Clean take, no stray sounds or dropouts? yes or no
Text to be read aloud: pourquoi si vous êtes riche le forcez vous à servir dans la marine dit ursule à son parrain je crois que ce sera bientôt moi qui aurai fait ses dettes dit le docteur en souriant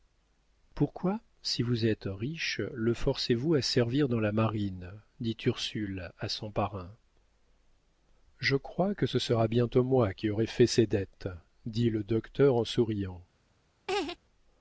no